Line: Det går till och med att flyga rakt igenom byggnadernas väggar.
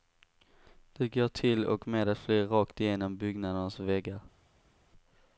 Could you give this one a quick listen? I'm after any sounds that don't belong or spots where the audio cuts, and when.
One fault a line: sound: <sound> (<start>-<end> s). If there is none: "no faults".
no faults